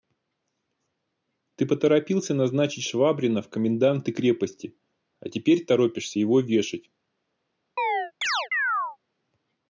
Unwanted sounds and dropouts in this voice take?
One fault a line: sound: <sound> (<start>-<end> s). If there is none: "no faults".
sound: chirp (7.8-9.0 s)